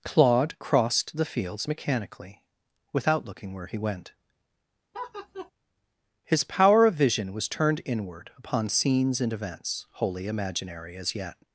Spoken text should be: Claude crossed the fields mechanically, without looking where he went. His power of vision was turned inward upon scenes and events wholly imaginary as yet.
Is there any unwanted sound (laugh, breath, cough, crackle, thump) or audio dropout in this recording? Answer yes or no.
yes